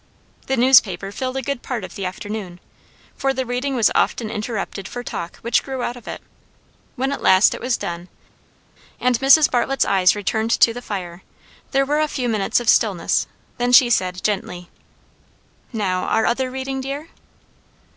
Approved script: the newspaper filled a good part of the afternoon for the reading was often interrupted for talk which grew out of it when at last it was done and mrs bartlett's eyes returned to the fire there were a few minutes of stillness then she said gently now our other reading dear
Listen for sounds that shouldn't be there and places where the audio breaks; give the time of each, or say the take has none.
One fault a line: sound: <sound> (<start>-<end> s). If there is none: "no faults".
no faults